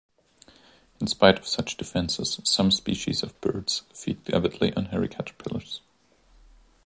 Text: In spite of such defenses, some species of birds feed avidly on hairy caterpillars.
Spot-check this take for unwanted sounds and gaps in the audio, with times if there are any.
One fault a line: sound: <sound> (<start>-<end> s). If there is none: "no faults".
no faults